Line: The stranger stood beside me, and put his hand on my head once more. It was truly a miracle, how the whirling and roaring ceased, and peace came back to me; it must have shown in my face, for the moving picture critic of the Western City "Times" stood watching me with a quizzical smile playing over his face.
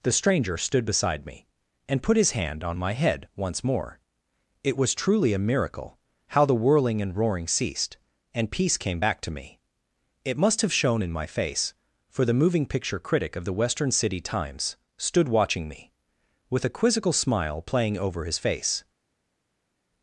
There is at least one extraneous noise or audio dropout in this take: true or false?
false